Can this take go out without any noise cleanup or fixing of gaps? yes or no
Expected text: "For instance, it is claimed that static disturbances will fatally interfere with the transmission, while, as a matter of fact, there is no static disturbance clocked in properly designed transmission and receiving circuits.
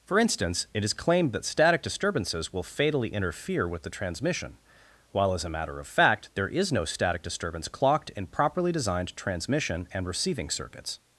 yes